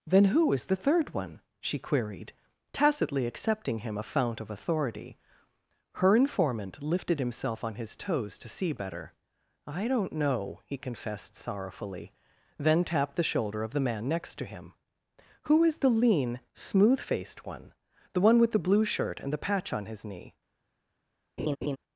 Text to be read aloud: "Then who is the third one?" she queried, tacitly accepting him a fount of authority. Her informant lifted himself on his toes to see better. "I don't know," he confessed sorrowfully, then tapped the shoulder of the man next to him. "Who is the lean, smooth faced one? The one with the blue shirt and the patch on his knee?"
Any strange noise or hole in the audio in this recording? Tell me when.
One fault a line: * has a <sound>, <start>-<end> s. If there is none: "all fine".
* has a laugh, 21.4-21.8 s